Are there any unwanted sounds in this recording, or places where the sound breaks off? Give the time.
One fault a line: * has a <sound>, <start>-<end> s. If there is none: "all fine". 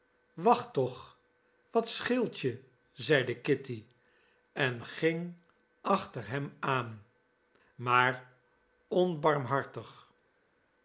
all fine